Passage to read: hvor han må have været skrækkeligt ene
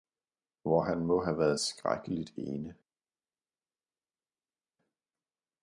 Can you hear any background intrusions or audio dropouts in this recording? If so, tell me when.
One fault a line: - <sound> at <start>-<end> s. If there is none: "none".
none